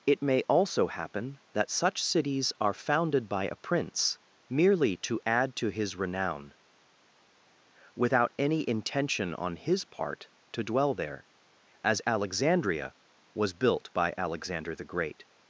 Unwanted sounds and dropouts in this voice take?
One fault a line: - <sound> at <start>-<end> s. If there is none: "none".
none